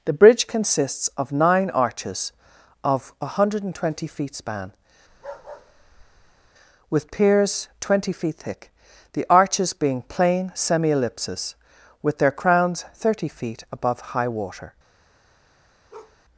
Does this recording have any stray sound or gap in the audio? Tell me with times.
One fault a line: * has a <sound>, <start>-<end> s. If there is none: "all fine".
* has a bark, 5.1-6.5 s
* has a bark, 15.9-16.2 s